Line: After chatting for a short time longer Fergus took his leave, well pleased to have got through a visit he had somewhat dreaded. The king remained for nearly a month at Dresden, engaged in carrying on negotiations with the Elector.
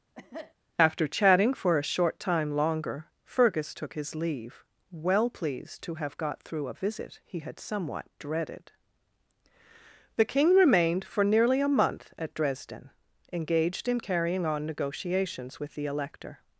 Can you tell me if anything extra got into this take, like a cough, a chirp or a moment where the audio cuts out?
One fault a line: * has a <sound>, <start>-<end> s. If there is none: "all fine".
* has a cough, 0.1-0.5 s